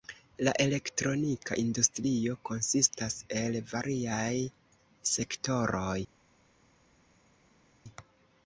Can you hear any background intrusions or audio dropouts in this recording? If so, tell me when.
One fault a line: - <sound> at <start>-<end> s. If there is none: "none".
none